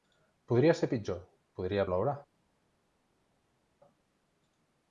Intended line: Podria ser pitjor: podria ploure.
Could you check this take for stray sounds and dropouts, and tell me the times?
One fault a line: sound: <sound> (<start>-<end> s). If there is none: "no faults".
no faults